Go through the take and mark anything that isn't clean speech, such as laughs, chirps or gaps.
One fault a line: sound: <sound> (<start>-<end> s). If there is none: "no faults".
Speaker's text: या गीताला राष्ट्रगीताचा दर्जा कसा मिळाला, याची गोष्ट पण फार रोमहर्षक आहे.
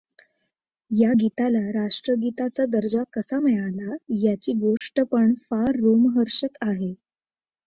sound: dropout (4.8-4.8 s)